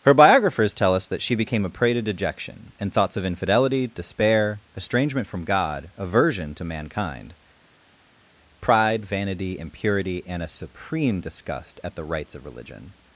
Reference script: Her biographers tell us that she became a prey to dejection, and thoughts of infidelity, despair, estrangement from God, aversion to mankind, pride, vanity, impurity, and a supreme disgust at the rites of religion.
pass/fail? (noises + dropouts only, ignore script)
pass